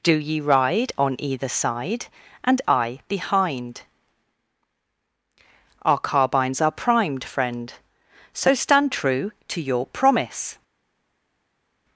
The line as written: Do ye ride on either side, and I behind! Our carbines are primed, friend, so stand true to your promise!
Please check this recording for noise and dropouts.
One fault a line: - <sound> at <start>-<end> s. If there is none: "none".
none